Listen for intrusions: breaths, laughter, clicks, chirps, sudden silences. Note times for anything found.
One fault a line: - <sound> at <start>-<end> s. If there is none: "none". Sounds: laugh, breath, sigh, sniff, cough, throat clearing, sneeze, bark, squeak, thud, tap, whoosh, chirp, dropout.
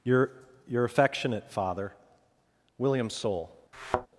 - thud at 3.7-4.1 s